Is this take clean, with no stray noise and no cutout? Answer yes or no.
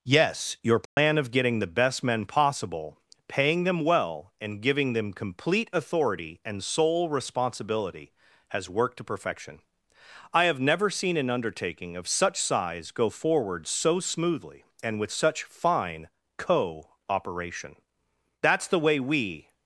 no